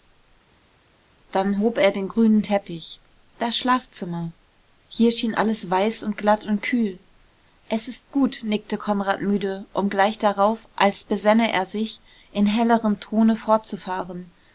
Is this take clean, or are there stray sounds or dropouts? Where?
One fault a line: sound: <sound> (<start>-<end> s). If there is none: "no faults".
no faults